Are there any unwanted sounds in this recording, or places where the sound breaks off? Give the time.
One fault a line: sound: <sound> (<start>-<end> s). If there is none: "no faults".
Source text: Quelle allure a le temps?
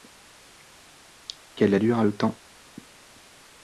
no faults